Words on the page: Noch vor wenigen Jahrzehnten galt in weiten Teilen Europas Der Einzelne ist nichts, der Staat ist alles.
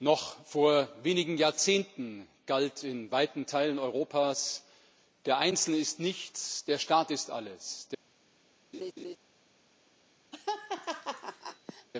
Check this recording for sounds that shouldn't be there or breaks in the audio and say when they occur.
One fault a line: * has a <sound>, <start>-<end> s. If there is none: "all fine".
* has a laugh, 8.7-9.2 s
* has a laugh, 10.3-11.9 s